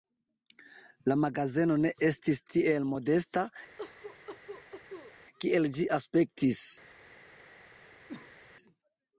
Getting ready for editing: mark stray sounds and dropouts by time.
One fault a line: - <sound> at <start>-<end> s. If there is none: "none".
- cough at 3.8-5.1 s
- cough at 8.1-8.4 s